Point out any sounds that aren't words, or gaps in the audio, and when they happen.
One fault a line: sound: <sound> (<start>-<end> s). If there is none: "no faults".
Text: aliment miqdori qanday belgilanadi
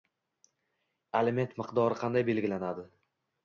no faults